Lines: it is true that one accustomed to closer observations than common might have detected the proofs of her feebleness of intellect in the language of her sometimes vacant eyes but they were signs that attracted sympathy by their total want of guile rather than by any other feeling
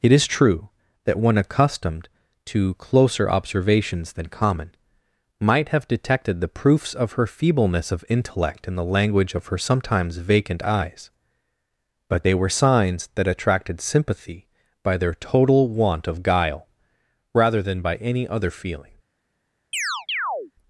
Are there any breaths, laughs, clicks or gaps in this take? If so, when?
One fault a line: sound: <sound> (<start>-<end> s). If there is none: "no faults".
sound: chirp (19.7-20.5 s)